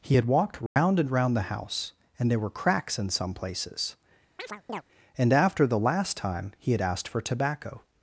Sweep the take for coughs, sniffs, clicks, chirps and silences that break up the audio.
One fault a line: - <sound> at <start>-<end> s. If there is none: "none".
- dropout at 0.7-0.8 s
- chirp at 4.4-4.8 s